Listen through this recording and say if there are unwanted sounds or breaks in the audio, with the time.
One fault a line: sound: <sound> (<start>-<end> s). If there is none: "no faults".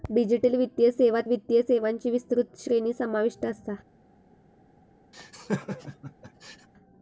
sound: laugh (5.1-6.7 s)